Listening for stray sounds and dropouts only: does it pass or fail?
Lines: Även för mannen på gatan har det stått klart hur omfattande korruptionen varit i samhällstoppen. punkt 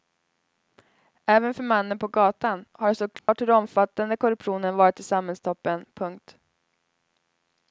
fail